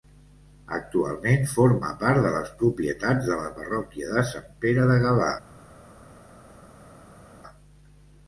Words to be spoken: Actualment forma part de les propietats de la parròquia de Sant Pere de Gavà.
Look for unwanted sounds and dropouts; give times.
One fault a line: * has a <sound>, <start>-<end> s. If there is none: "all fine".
all fine